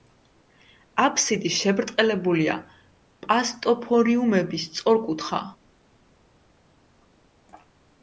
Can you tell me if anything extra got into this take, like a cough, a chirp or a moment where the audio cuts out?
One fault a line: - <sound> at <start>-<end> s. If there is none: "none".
none